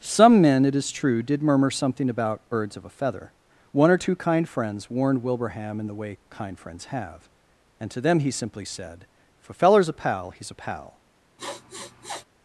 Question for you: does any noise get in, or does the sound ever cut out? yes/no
yes